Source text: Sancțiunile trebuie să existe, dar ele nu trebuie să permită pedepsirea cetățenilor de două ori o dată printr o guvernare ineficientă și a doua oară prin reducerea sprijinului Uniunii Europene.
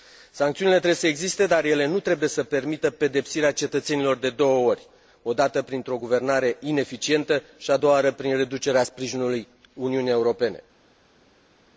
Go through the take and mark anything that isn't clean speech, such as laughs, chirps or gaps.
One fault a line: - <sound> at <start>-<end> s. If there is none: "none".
none